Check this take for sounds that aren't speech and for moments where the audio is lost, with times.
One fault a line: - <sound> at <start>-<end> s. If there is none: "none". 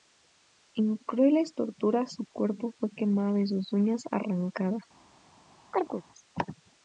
- chirp at 5.7-6.0 s